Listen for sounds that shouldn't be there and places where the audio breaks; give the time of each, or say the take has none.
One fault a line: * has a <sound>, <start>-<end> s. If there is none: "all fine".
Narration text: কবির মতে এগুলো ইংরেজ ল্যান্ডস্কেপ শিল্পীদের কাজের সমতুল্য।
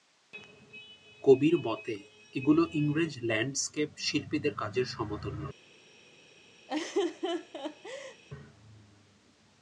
* has a laugh, 6.7-8.2 s